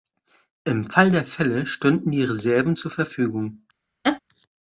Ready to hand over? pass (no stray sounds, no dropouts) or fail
fail